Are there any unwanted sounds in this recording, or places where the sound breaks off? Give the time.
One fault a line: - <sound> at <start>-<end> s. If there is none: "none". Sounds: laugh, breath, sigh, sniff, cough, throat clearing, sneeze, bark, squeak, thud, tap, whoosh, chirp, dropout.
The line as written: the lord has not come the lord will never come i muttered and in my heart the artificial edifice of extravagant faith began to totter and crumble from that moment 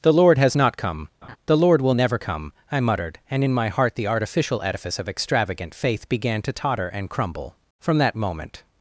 - laugh at 1.2-1.4 s